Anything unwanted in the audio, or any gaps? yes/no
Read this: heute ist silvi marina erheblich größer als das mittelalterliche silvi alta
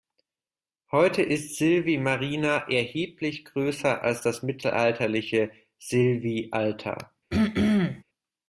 yes